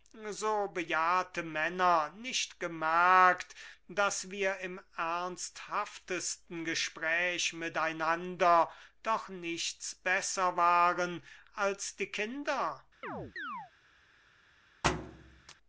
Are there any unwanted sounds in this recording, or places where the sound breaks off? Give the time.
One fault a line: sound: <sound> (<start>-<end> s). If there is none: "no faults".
sound: chirp (13.0-13.7 s)
sound: thud (14.8-15.6 s)